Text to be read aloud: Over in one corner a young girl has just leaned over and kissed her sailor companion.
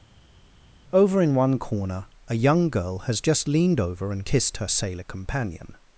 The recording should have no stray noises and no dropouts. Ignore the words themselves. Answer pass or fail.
pass